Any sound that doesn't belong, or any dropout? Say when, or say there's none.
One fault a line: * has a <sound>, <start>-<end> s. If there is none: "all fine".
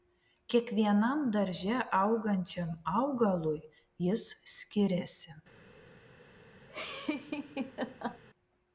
* has a laugh, 6.7-8.2 s